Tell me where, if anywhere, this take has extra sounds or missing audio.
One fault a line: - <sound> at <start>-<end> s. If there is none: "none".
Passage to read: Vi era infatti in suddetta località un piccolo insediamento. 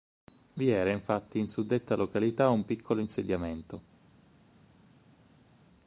none